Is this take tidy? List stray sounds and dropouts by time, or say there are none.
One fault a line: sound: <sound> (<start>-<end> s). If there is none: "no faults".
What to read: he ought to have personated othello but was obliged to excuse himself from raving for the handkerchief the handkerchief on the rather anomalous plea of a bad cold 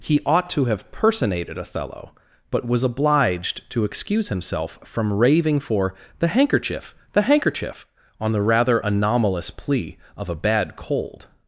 no faults